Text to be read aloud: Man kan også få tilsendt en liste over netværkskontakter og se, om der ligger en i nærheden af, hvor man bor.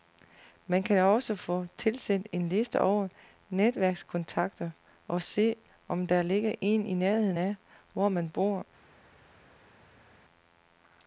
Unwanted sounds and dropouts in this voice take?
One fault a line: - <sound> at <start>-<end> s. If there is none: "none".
none